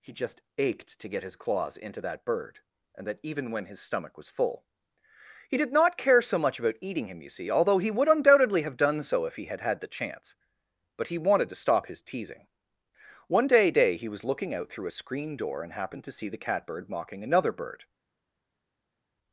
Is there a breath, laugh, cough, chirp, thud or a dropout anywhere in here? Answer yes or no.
no